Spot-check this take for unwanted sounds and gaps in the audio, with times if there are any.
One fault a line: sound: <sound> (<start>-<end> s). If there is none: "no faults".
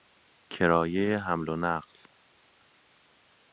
no faults